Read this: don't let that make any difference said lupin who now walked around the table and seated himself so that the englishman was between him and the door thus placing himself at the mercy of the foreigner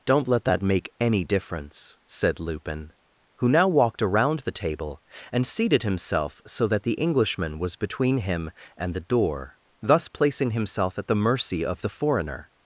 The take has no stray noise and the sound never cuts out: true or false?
true